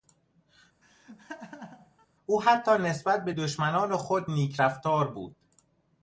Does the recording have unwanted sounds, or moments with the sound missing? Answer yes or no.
yes